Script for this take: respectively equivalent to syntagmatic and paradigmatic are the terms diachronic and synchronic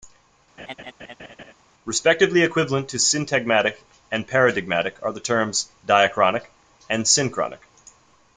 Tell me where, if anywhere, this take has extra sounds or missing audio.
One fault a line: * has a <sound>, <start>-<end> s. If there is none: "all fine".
* has a laugh, 0.6-1.5 s